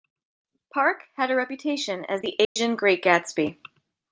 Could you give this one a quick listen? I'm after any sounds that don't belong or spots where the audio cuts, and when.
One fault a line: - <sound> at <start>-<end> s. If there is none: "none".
- dropout at 2.4-2.6 s